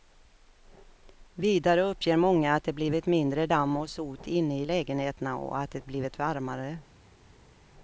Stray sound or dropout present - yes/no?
no